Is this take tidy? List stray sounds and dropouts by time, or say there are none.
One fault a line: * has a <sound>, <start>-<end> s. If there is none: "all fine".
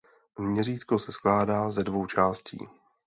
all fine